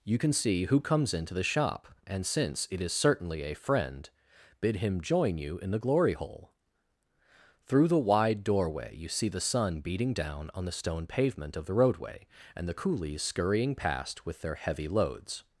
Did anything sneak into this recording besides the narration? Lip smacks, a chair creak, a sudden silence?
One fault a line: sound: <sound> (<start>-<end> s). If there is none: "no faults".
no faults